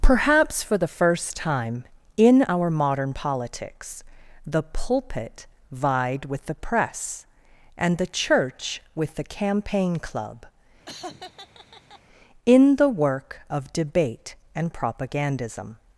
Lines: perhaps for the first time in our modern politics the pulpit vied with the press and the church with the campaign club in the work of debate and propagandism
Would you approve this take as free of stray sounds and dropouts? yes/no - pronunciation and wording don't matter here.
no